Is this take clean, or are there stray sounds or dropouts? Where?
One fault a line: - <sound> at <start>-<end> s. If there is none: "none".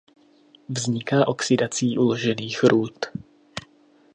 none